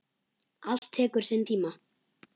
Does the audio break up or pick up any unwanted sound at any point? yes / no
yes